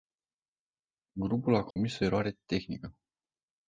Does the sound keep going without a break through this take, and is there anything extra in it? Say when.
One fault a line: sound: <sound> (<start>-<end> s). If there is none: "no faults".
sound: dropout (1.7-1.8 s)